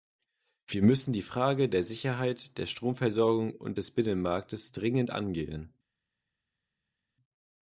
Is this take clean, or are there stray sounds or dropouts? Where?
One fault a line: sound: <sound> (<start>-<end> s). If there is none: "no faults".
no faults